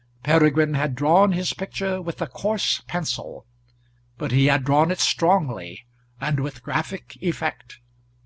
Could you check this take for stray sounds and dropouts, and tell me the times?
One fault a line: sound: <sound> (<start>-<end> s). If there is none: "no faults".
no faults